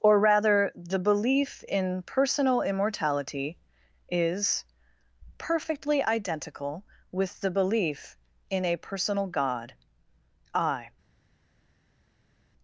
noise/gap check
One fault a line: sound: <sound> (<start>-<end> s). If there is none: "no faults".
no faults